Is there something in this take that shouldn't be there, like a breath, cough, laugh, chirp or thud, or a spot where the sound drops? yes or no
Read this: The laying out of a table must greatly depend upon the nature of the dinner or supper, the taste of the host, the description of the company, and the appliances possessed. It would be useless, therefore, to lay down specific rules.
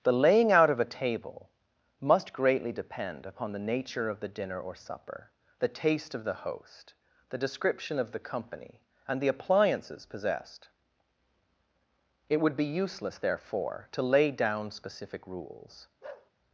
yes